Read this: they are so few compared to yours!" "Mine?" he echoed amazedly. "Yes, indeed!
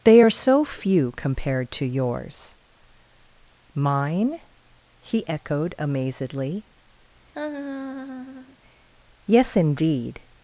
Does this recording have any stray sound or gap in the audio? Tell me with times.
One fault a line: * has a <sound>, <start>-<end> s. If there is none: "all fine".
* has a laugh, 7.3-8.6 s